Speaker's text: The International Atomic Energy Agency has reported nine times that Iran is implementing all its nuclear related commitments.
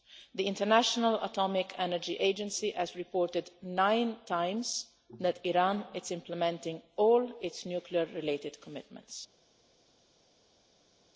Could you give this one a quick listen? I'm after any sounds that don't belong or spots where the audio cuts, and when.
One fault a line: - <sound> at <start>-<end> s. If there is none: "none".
none